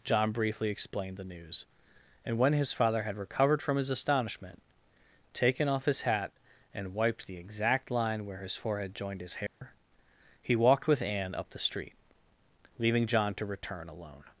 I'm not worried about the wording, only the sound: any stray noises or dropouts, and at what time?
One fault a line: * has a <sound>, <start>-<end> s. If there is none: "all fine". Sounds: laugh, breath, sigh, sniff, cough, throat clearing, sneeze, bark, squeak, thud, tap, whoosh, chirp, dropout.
* has a dropout, 9.5-9.6 s